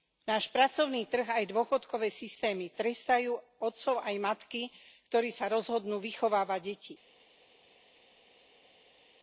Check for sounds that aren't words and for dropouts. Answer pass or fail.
pass